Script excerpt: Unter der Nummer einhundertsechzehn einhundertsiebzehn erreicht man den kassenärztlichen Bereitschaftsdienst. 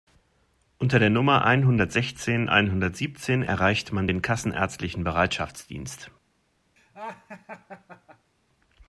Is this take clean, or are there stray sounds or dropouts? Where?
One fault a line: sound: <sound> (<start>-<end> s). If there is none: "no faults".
sound: laugh (6.8-8.3 s)